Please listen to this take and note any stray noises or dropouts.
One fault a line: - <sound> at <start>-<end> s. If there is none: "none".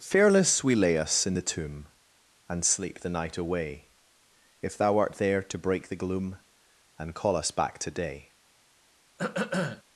- throat clearing at 9.2-9.8 s